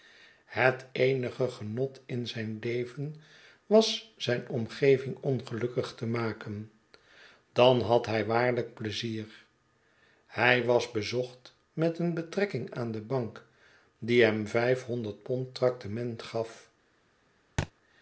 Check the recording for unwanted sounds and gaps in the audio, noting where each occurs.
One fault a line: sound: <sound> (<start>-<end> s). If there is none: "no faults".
sound: thud (17.6-17.7 s)